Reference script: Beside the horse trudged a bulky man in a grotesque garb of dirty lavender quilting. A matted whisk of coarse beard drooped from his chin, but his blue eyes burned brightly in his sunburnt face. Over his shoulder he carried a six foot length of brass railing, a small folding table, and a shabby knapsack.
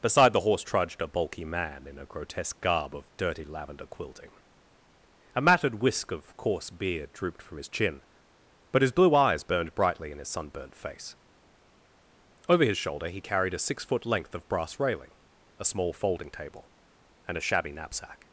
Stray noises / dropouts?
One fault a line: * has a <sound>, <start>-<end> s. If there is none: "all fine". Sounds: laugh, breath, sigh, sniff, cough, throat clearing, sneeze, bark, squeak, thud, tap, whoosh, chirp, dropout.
all fine